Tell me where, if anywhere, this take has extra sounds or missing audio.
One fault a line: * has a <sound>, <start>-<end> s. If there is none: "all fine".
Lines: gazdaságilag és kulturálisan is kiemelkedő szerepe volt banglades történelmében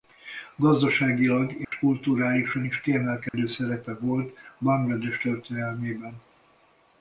* has a dropout, 1.6-1.7 s
* has a dropout, 3.3-3.3 s